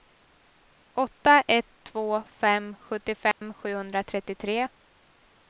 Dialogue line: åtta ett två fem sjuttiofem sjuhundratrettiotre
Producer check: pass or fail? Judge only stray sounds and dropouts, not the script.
fail